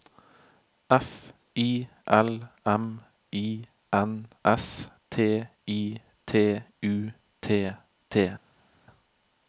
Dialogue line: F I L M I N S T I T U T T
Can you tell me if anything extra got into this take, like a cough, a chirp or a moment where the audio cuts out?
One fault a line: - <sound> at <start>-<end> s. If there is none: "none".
none